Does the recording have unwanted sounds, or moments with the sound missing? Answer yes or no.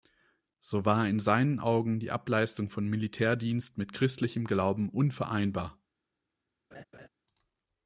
yes